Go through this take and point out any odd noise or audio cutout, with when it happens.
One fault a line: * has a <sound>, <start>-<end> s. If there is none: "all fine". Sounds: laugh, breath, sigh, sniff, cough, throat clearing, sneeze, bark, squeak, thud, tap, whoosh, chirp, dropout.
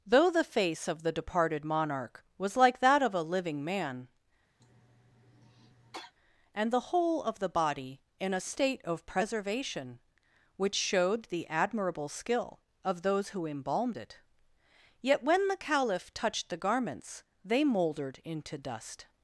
* has a cough, 4.6-6.1 s